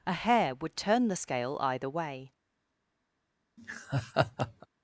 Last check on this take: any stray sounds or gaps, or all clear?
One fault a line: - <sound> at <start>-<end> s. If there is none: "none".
- laugh at 3.6-4.7 s